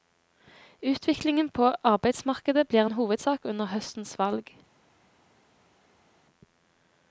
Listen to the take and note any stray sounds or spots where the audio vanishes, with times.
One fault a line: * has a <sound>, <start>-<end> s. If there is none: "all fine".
all fine